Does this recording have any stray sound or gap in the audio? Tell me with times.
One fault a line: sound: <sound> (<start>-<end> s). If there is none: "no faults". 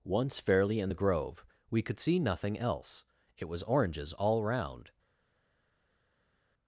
no faults